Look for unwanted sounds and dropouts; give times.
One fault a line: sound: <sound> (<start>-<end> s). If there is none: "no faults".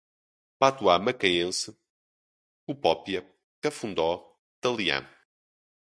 no faults